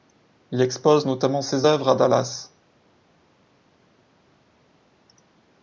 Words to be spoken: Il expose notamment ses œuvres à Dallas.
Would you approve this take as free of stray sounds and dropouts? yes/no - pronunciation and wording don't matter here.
yes